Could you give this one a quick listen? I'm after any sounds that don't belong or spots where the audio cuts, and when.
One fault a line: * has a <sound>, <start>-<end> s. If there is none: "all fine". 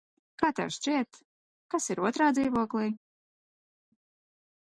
all fine